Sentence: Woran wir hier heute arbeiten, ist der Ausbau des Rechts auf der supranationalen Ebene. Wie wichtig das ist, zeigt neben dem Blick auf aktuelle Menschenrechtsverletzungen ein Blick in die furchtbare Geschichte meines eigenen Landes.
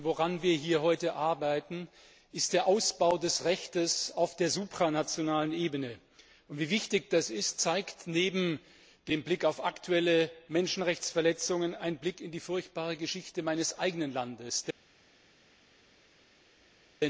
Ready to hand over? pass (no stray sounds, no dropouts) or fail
pass